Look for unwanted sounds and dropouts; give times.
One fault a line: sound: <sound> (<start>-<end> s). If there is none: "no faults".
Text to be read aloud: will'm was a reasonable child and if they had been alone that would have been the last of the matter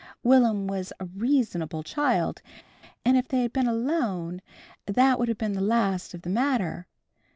no faults